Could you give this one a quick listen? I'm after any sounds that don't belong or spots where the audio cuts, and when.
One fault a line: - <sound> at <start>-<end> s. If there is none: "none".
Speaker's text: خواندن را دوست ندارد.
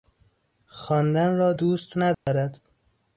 - dropout at 2.1-2.3 s